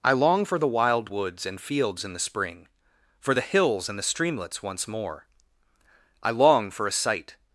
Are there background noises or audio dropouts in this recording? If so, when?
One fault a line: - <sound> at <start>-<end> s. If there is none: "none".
none